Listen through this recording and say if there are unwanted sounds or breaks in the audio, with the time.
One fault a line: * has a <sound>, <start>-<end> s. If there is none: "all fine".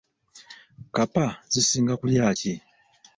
all fine